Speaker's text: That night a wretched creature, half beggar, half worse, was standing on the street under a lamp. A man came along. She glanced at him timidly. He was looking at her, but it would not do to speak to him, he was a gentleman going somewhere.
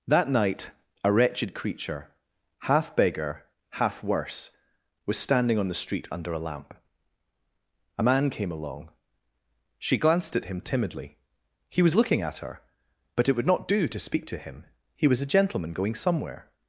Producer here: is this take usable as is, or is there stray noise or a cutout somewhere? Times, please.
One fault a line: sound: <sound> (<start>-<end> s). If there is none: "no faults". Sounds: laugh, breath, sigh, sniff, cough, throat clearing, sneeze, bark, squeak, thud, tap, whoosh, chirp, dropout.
no faults